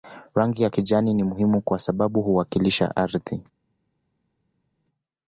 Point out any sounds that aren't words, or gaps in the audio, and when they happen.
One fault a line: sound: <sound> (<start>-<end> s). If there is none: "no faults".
no faults